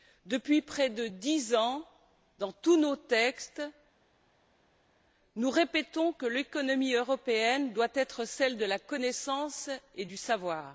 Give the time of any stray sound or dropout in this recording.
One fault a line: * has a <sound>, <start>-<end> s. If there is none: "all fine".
all fine